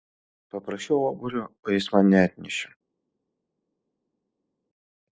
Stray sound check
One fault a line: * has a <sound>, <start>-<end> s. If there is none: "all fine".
all fine